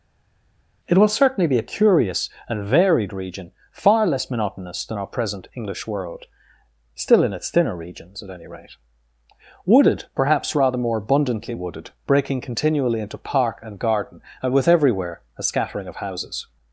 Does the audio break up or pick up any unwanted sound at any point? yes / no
no